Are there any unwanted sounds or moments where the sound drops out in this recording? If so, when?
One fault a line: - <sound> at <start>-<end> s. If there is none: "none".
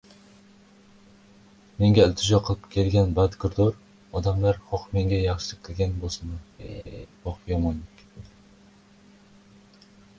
- laugh at 6.6-7.1 s